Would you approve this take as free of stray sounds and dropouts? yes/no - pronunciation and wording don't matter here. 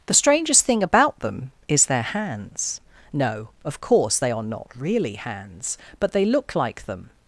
yes